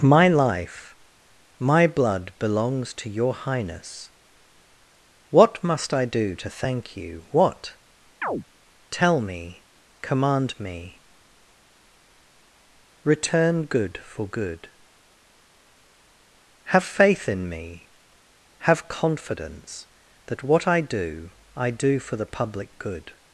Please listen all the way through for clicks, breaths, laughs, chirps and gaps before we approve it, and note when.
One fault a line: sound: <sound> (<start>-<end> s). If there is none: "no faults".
sound: chirp (8.2-8.4 s)